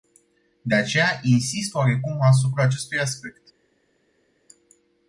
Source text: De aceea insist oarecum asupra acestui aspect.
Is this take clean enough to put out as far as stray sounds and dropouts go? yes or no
yes